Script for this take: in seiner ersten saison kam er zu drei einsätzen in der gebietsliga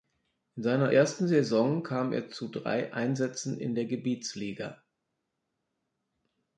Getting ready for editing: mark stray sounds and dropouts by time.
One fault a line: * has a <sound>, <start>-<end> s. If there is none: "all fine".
all fine